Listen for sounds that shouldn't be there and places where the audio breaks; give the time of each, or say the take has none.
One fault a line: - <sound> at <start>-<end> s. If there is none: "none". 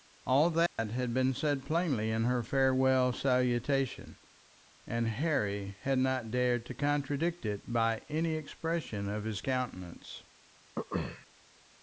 - dropout at 0.7-0.8 s
- throat clearing at 10.8-11.3 s